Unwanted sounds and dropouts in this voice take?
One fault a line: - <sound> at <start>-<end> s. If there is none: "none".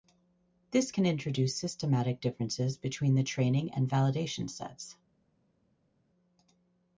none